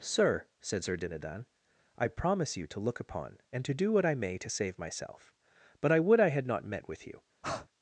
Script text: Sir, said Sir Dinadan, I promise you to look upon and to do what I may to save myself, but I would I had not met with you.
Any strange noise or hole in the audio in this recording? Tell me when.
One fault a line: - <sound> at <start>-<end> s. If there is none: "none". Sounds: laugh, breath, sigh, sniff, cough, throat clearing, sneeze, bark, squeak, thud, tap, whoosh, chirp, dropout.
- breath at 7.4-7.7 s